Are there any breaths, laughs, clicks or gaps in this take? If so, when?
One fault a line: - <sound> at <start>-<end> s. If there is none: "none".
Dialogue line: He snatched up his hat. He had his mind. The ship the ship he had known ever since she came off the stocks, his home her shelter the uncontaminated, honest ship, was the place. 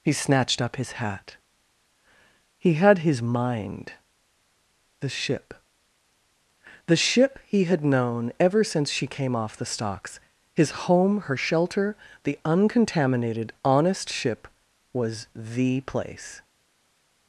none